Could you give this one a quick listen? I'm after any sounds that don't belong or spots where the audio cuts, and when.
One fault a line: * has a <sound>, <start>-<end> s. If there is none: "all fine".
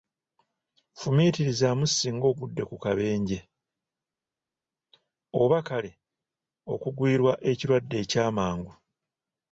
all fine